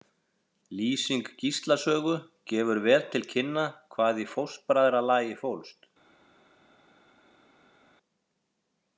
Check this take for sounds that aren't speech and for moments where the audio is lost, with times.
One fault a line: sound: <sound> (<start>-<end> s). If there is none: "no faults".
no faults